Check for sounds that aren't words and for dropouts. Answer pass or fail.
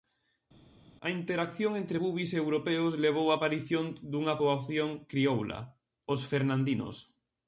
pass